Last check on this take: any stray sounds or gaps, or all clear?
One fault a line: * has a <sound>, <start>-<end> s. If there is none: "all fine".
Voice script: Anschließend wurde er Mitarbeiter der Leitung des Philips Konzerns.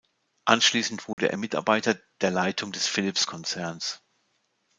* has a dropout, 1.1-1.2 s